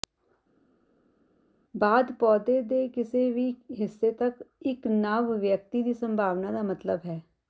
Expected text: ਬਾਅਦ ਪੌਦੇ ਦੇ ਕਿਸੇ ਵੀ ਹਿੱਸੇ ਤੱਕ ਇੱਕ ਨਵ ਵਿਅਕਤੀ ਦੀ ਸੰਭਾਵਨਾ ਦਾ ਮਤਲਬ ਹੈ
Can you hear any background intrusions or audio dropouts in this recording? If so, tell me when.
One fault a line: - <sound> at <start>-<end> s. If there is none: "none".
none